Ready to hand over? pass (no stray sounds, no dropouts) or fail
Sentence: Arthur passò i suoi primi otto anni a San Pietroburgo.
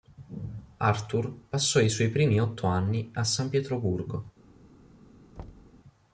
fail